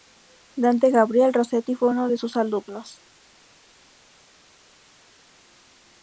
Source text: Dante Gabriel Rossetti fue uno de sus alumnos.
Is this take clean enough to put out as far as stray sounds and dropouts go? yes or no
yes